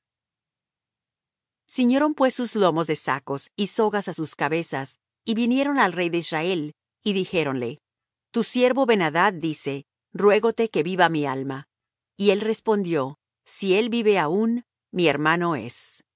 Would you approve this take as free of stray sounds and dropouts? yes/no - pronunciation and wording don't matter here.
yes